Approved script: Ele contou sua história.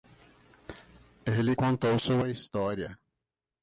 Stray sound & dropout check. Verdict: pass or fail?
pass